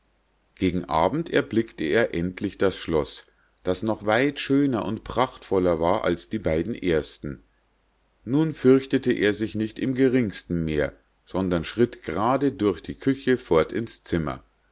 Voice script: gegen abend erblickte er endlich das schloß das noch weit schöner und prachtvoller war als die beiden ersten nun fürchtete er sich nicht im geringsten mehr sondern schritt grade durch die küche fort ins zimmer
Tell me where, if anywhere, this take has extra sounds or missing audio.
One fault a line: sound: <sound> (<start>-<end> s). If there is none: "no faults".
no faults